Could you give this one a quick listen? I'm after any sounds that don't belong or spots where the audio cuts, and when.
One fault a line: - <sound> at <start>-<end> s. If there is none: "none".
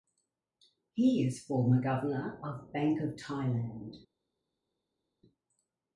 none